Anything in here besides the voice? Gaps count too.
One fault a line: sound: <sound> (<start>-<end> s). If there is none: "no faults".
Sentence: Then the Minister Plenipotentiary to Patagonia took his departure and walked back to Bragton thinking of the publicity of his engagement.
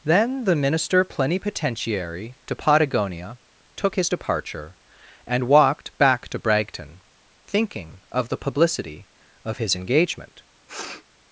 sound: sniff (10.7-11.0 s)